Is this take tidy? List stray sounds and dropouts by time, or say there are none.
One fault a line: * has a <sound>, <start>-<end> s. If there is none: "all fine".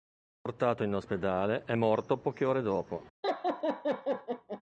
* has a laugh, 3.2-4.6 s